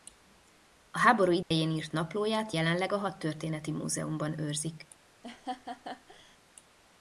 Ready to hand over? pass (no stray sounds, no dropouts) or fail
fail